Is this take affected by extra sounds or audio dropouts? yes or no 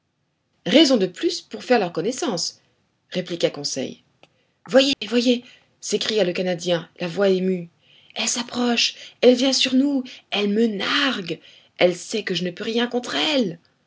yes